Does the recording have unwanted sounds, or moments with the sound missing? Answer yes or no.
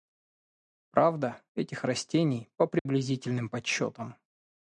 yes